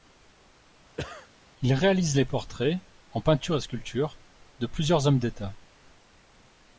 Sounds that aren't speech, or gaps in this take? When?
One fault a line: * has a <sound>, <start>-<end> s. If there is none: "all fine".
* has a cough, 1.0-1.3 s